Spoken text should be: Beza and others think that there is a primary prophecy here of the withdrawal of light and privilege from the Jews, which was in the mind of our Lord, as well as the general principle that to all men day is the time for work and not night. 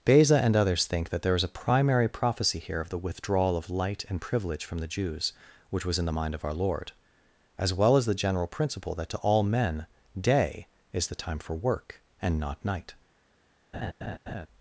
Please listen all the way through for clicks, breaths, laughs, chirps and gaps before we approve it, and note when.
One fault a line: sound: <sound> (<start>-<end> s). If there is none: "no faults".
sound: laugh (13.7-14.5 s)